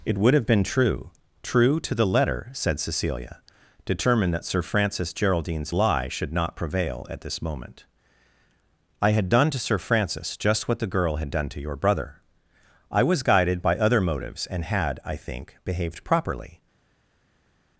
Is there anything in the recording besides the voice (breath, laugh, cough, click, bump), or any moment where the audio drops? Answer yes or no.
no